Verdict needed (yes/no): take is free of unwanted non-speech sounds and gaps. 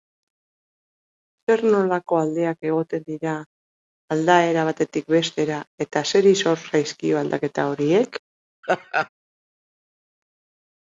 no